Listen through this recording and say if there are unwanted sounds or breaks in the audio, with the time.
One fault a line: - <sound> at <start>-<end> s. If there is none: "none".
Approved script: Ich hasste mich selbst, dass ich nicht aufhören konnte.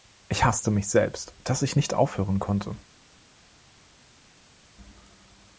none